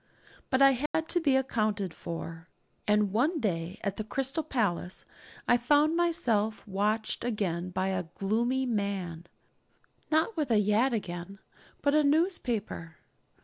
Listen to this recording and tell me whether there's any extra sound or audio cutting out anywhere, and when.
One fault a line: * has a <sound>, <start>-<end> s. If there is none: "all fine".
* has a dropout, 0.9-0.9 s